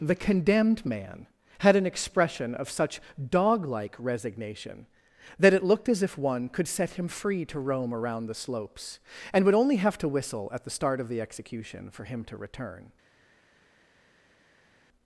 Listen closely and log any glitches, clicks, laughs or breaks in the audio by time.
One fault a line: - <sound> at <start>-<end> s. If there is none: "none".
none